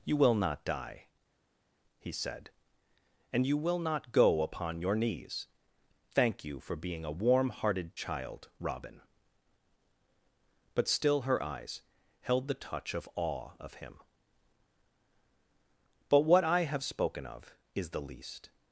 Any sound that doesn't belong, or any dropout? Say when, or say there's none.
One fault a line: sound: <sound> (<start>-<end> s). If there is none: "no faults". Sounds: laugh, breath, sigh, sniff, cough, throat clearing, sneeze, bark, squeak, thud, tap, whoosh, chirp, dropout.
no faults